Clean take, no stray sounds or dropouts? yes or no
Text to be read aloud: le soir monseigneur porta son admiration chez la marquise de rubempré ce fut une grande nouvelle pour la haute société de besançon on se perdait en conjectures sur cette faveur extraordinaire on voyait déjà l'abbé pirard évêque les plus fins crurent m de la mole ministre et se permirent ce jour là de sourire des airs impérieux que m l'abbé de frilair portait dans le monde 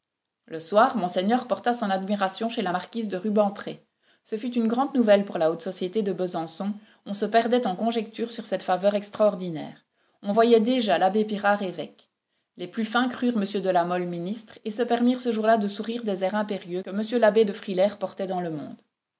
yes